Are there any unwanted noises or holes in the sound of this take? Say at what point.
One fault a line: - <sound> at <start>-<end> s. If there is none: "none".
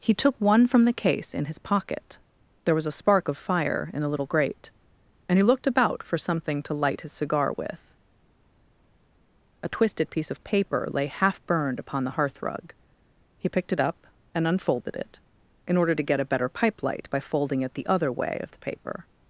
none